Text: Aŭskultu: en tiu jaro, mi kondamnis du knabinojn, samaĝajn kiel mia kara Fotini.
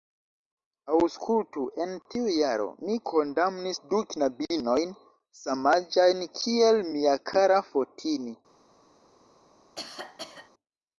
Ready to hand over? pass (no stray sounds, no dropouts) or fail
fail